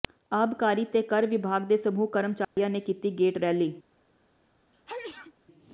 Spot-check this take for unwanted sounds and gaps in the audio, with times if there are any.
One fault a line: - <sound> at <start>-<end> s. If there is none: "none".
- dropout at 2.4-2.6 s
- sneeze at 4.7-5.3 s